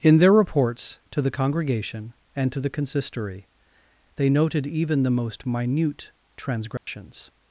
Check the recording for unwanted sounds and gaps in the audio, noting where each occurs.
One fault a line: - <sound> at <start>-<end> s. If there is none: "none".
- dropout at 6.8-6.9 s